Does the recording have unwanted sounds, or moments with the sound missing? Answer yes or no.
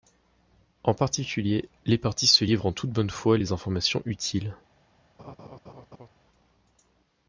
yes